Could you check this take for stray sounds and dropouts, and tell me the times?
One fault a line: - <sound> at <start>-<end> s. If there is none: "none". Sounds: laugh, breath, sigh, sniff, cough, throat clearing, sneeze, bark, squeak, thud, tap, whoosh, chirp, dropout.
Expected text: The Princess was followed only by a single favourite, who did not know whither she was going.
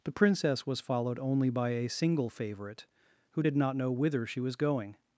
none